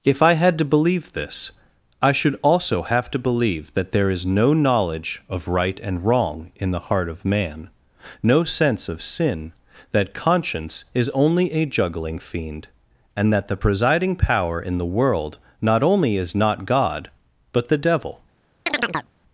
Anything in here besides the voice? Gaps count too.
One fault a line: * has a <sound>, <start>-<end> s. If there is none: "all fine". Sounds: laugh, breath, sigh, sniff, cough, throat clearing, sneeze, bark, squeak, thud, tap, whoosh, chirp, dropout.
* has a chirp, 18.7-19.1 s